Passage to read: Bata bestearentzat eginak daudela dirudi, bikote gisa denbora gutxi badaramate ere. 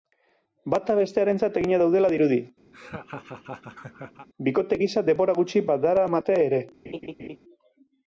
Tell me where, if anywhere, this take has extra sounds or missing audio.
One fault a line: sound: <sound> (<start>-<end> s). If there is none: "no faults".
sound: laugh (2.7-4.3 s)
sound: laugh (6.8-7.4 s)